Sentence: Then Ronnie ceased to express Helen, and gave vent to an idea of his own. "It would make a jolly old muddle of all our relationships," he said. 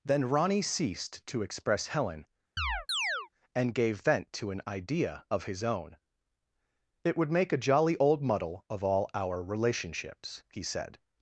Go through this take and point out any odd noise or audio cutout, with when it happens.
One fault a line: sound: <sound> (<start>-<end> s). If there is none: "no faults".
sound: chirp (2.6-3.3 s)